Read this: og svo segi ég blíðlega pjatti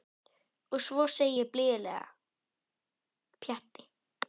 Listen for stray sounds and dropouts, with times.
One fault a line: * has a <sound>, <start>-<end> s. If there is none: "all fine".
all fine